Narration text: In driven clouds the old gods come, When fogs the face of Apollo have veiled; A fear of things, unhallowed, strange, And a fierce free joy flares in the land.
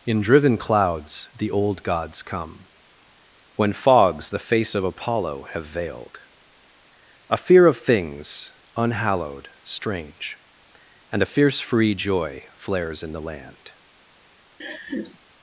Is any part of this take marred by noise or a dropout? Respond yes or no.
yes